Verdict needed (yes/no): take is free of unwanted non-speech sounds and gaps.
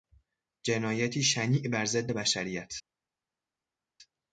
yes